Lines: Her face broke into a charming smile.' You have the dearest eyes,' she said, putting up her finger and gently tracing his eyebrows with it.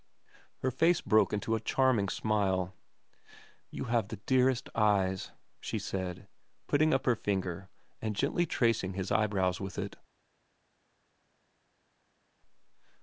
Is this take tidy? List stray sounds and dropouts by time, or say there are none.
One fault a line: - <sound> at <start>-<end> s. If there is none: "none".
none